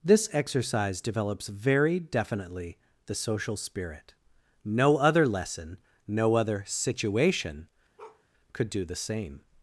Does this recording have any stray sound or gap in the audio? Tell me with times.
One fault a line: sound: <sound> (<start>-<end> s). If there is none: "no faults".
sound: bark (8.0-8.2 s)